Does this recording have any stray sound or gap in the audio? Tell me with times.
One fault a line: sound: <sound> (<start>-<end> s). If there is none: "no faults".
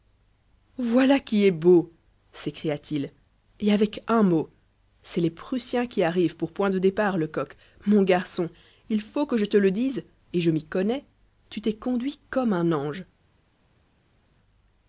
no faults